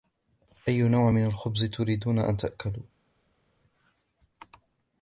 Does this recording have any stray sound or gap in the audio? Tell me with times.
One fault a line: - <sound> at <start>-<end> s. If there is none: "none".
none